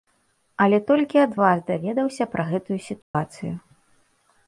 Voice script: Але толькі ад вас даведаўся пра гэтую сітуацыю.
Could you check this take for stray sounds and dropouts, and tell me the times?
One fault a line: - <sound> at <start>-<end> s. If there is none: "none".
- dropout at 3.0-3.1 s